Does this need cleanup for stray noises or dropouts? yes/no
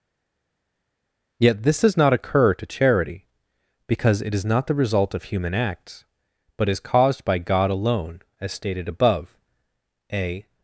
no